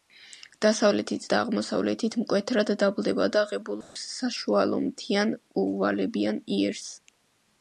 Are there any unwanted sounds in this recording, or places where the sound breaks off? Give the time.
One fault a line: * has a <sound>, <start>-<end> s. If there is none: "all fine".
* has a dropout, 3.8-4.0 s